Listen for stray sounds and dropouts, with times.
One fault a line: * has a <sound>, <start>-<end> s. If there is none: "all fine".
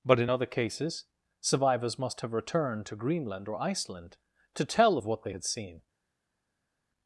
all fine